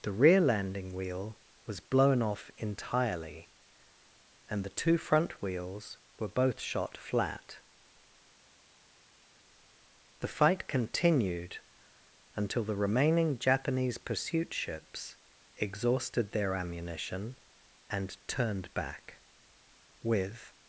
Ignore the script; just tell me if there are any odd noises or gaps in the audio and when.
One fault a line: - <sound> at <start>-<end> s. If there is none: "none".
none